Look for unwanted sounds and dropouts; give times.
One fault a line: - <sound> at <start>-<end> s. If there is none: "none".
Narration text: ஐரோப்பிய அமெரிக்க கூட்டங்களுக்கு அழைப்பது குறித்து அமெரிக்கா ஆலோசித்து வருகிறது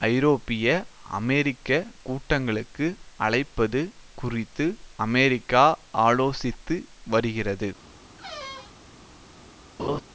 - squeak at 8.2-8.8 s
- laugh at 9.8-10.0 s